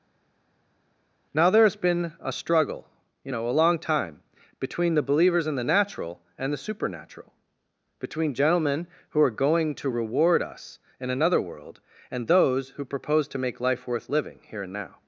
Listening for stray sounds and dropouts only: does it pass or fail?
pass